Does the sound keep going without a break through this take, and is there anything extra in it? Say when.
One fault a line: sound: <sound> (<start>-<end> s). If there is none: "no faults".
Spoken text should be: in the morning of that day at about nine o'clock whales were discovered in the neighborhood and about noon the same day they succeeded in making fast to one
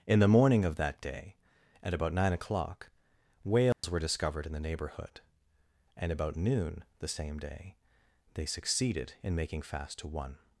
sound: dropout (3.7-3.8 s)